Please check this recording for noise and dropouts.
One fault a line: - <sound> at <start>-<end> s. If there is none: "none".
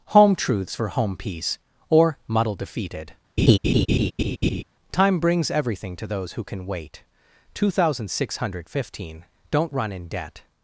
- laugh at 3.4-4.6 s